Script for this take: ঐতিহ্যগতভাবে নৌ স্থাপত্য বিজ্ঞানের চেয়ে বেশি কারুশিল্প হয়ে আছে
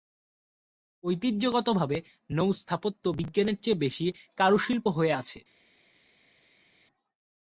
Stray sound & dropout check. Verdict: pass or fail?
pass